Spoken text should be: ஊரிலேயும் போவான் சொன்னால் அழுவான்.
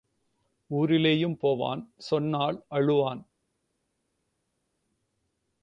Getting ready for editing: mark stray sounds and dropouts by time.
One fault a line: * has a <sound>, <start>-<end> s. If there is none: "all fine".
all fine